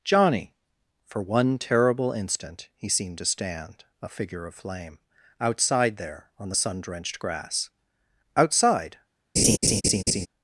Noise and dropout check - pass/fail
fail